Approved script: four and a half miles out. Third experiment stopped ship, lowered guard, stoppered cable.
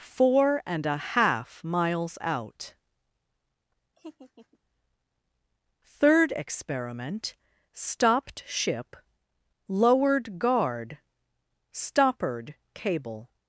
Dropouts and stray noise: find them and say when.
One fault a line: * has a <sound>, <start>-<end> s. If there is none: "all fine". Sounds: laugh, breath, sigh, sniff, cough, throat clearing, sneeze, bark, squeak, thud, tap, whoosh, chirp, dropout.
* has a laugh, 4.0-4.6 s